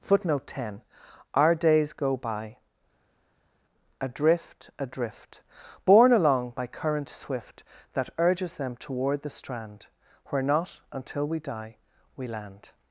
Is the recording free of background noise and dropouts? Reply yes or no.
yes